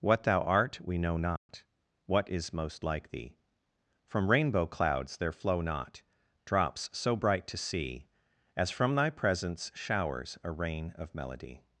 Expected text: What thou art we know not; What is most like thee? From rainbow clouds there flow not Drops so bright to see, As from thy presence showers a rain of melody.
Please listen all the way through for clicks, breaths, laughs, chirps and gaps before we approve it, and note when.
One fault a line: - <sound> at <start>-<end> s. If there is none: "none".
- dropout at 1.4-1.5 s